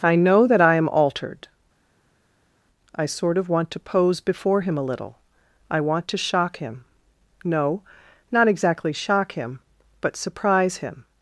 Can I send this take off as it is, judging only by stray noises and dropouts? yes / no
yes